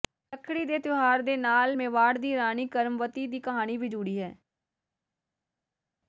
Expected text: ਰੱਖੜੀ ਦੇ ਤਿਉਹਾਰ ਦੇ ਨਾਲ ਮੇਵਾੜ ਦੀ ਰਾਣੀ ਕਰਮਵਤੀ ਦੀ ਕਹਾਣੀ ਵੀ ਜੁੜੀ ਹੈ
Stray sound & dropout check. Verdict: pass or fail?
pass